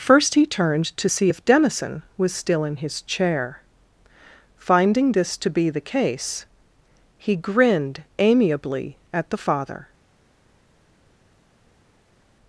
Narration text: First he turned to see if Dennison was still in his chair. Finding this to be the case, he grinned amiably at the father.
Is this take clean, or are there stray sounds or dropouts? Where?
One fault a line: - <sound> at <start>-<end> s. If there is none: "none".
none